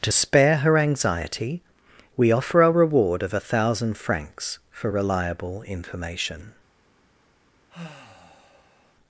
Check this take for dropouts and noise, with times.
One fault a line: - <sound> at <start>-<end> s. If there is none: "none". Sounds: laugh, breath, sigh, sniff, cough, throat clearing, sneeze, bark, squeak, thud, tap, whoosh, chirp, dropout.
- sigh at 7.7-8.9 s